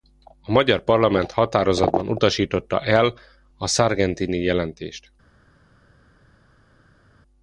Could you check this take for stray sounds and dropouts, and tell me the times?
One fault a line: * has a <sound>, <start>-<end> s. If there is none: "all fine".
all fine